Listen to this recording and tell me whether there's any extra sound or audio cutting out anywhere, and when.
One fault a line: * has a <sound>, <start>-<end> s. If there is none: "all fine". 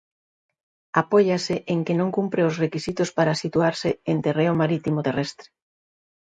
all fine